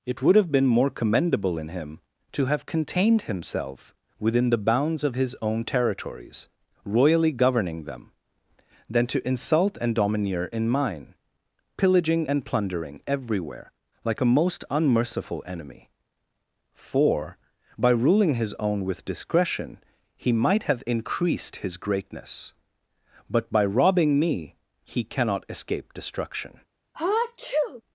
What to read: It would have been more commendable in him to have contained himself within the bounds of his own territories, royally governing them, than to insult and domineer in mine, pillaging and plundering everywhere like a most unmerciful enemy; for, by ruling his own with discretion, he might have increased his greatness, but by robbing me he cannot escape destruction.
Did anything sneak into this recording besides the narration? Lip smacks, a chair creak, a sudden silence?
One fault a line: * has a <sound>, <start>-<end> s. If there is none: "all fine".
* has a sneeze, 26.9-27.8 s